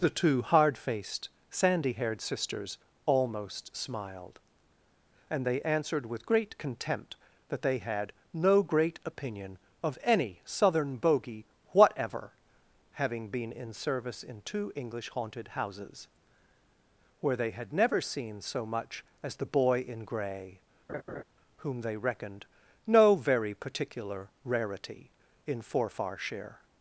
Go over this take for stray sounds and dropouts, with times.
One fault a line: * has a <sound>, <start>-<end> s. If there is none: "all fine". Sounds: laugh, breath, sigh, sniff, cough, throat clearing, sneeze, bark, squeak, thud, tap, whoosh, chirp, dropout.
* has a laugh, 20.9-21.2 s